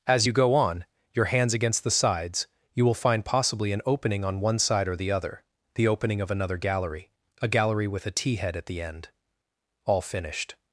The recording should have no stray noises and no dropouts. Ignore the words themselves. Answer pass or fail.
pass